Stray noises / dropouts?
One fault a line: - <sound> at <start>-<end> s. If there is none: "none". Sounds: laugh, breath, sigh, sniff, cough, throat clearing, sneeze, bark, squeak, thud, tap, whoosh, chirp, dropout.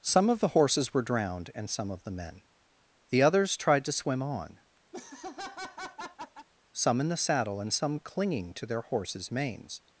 - laugh at 4.9-6.5 s